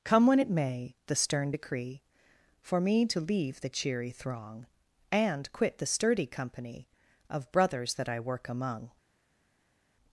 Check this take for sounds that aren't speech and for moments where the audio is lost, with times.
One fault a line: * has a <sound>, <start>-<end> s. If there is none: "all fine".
all fine